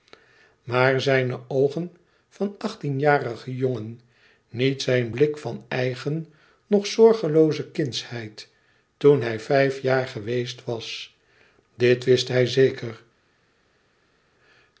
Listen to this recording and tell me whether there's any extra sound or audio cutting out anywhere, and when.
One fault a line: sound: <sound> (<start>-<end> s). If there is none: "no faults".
no faults